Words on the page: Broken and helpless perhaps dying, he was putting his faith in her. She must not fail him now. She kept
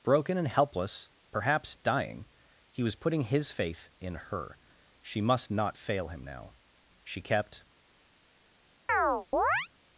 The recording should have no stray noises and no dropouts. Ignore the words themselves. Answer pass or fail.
fail